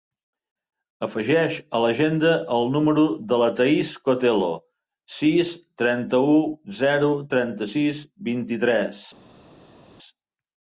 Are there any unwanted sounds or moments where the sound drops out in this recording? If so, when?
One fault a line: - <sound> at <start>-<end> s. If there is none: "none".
none